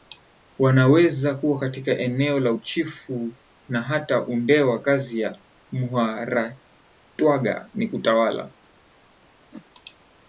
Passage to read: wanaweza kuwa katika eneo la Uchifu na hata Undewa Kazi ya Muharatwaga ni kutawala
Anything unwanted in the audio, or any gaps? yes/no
yes